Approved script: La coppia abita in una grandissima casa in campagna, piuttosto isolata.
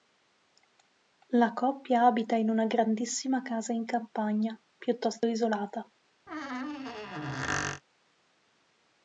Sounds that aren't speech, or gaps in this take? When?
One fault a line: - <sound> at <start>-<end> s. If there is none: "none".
- squeak at 6.3-7.8 s